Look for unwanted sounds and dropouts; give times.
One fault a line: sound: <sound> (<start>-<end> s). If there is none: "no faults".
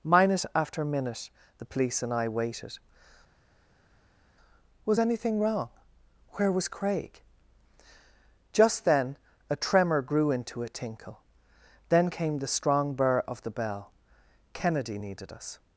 no faults